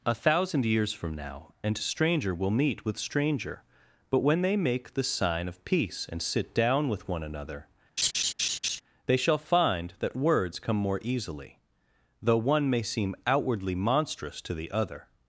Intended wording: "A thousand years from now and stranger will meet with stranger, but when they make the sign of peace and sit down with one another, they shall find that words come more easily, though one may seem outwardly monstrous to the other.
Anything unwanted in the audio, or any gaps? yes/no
yes